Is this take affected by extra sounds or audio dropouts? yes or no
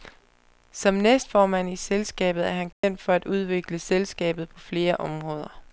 yes